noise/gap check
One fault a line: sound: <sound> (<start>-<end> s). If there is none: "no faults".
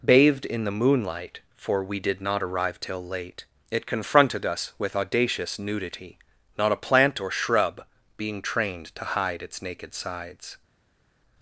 no faults